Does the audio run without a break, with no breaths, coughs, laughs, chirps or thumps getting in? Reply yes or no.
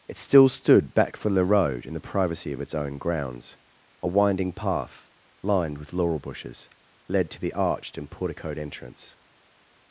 yes